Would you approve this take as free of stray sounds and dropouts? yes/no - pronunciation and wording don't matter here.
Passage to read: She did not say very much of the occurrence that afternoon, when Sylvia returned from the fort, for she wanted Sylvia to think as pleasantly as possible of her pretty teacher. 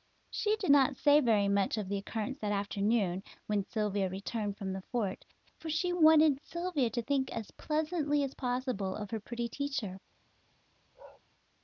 no